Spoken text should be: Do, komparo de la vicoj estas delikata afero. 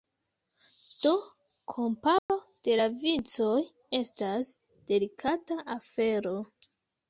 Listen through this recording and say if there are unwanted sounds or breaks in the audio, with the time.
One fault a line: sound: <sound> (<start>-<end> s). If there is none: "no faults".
sound: dropout (2.2-2.3 s)